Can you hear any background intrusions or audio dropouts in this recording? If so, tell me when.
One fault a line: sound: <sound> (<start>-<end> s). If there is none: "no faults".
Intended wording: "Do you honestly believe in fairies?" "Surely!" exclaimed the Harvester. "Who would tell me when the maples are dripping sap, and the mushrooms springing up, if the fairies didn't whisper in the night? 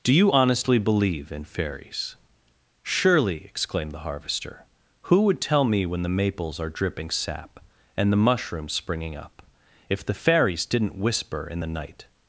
no faults